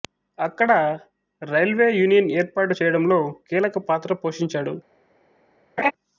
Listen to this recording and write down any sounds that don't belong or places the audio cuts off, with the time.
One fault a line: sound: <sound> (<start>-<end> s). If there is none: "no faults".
sound: laugh (5.8-5.9 s)